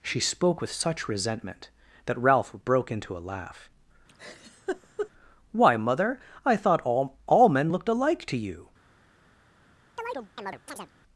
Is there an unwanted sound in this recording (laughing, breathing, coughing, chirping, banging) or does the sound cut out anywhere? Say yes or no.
yes